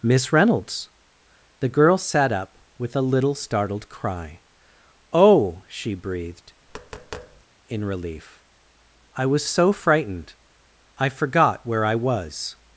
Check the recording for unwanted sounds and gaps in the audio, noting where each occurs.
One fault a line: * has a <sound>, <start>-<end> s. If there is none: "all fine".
* has a tap, 6.7-7.4 s